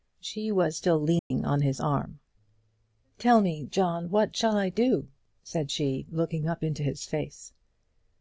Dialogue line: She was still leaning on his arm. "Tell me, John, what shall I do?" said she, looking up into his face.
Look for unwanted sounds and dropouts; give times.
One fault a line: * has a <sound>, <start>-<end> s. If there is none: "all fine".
* has a dropout, 1.2-1.3 s